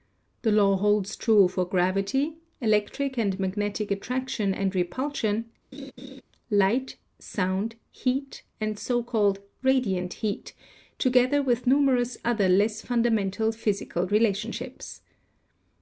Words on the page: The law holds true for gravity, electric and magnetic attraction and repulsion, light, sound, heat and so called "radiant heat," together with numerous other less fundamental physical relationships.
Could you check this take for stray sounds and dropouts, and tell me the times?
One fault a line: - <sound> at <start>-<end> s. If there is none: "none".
- laugh at 5.7-6.2 s